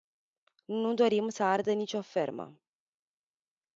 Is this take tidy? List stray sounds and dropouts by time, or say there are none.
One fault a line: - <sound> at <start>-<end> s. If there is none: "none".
none